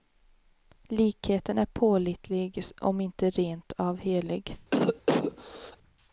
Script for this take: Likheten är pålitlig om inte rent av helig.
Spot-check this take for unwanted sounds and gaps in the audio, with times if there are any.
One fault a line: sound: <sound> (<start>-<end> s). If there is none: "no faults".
sound: cough (4.7-5.8 s)